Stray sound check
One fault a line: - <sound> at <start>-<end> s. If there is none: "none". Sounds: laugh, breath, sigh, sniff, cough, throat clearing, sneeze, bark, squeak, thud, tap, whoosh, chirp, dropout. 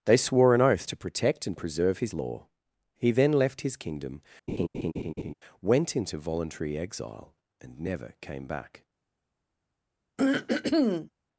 - laugh at 4.5-5.3 s
- throat clearing at 10.2-11.1 s